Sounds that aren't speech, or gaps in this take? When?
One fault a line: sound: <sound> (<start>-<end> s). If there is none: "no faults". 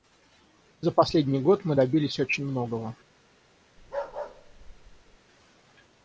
sound: bark (3.8-5.2 s)